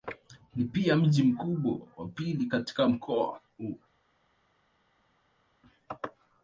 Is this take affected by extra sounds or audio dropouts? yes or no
no